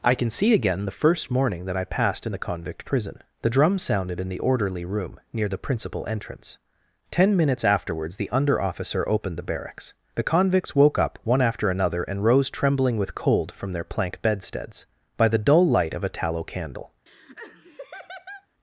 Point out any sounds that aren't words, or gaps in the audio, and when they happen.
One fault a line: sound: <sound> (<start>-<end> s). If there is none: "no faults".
sound: laugh (17.1-18.5 s)